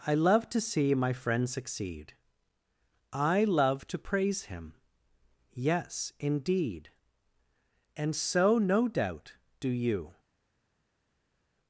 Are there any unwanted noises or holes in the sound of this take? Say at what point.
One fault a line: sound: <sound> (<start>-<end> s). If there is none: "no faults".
no faults